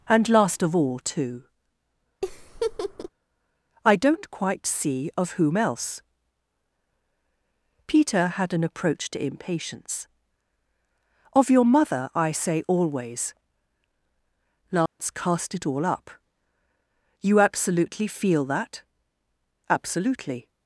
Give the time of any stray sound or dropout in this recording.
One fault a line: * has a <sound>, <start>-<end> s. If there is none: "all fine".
* has a laugh, 2.2-3.1 s
* has a dropout, 14.9-15.0 s